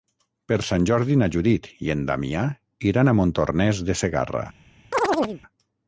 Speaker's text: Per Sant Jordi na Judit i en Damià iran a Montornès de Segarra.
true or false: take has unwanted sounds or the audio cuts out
true